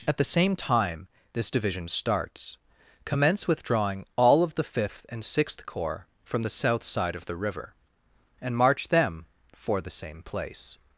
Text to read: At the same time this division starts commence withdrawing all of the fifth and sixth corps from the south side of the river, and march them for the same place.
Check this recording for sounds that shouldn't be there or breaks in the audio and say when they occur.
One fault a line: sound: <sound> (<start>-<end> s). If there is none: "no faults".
no faults